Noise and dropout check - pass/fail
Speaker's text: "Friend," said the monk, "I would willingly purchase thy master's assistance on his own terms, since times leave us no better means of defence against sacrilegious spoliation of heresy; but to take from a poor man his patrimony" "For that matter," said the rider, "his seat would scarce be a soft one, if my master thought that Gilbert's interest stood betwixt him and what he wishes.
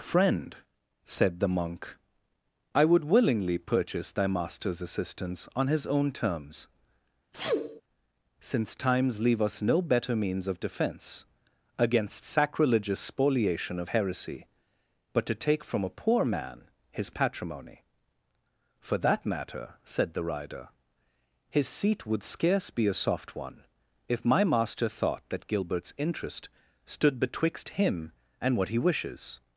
fail